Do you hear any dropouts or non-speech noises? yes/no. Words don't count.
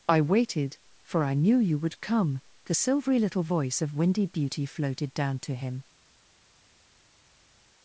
no